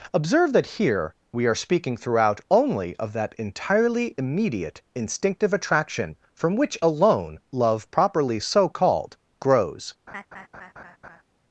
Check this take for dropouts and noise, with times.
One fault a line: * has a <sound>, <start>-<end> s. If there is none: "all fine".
* has a laugh, 10.1-11.2 s